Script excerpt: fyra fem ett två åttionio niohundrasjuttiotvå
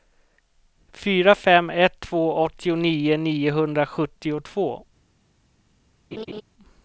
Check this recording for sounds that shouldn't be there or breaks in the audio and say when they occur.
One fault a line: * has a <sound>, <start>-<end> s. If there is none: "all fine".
* has a laugh, 6.1-6.4 s